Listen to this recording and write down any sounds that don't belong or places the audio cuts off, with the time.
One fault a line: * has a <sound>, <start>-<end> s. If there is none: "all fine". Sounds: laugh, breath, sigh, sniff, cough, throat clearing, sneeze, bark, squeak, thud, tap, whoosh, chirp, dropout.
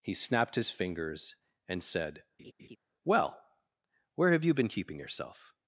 * has a laugh, 2.4-2.8 s